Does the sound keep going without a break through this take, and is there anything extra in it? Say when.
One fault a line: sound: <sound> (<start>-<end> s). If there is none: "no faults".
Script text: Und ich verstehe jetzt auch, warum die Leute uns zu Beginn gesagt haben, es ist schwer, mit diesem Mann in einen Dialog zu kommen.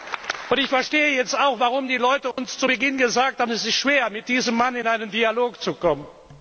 sound: dropout (2.3-2.4 s)